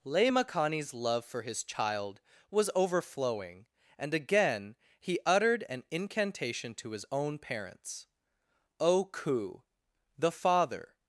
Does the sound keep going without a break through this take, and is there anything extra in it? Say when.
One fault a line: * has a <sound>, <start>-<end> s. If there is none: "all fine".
all fine